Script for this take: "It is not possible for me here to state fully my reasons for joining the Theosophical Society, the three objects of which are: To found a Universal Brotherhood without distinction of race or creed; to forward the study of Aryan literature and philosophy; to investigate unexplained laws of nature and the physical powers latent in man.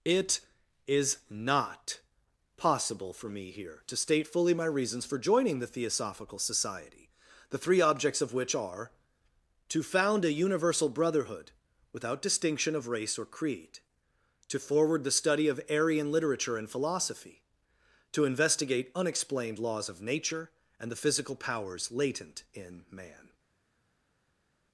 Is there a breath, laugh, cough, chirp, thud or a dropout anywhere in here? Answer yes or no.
no